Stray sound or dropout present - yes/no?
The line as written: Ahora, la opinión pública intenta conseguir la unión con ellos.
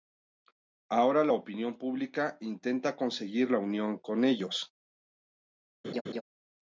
yes